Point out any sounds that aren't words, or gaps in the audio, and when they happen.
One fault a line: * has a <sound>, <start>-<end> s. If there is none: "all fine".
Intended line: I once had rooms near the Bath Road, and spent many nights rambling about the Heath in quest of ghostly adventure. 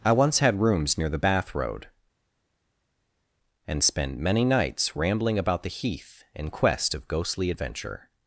all fine